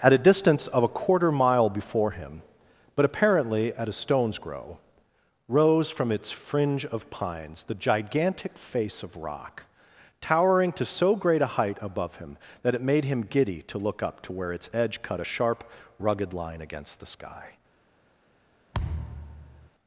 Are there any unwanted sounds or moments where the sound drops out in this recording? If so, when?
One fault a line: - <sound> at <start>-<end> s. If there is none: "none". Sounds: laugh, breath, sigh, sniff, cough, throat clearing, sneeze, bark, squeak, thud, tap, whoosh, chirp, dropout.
- thud at 18.7-19.7 s